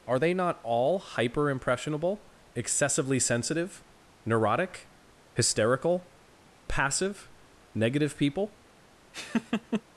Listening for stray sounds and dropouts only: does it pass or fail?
fail